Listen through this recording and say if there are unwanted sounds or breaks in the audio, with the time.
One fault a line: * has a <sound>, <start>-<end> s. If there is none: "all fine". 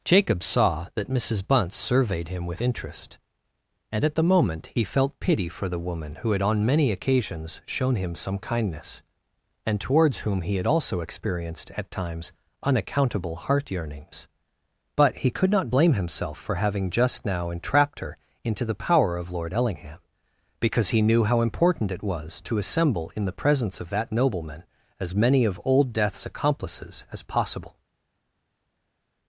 all fine